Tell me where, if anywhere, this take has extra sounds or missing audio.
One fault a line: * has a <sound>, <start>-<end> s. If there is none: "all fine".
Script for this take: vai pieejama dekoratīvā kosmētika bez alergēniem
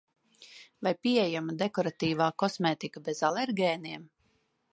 all fine